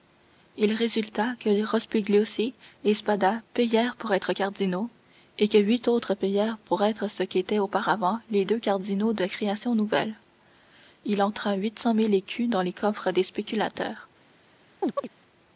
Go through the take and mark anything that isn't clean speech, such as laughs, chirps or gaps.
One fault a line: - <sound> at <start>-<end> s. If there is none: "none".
- chirp at 14.8-15.1 s